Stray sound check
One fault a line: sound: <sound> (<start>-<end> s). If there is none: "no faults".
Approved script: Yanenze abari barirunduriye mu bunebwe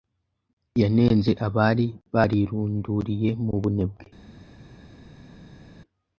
no faults